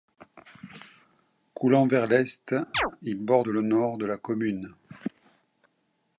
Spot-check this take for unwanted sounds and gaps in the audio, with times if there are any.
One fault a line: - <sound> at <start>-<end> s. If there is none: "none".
- chirp at 2.7-2.9 s